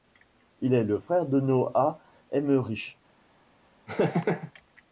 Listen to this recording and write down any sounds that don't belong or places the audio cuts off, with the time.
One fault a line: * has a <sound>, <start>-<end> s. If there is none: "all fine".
* has a laugh, 3.9-4.5 s